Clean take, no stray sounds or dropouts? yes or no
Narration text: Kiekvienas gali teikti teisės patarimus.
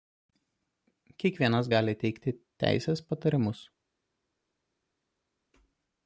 yes